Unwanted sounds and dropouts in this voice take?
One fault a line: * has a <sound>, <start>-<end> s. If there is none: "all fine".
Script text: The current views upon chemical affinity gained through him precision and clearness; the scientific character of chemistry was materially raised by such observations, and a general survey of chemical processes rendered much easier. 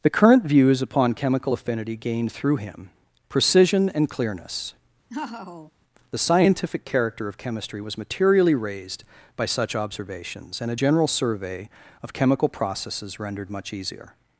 * has a laugh, 5.1-5.7 s